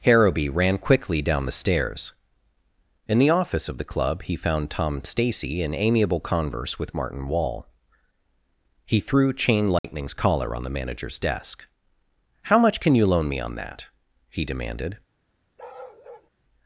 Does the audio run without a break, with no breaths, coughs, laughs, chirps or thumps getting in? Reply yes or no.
no